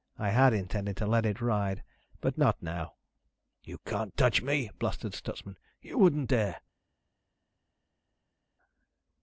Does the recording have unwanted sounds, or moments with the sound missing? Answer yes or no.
no